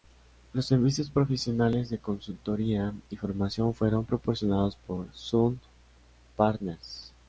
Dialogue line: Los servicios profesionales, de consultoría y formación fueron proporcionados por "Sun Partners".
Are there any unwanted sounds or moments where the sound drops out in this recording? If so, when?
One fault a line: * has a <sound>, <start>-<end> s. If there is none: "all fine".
all fine